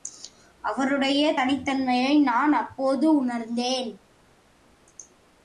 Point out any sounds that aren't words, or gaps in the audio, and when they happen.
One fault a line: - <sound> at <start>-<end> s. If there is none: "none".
none